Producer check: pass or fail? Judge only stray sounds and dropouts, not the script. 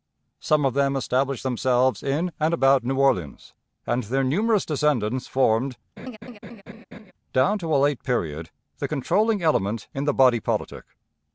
fail